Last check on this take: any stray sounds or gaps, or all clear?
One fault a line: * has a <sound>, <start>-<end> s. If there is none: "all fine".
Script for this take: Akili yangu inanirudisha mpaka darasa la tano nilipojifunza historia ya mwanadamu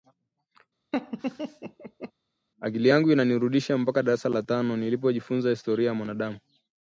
* has a laugh, 0.9-2.1 s